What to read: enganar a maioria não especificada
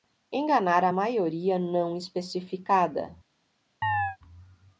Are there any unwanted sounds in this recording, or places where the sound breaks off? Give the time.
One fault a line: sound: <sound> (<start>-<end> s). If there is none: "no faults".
sound: chirp (3.8-4.2 s)